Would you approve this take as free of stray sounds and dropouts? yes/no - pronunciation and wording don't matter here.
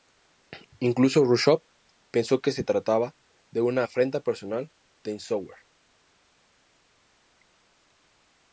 yes